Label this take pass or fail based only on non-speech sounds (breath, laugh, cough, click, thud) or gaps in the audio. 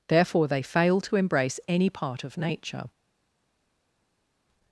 pass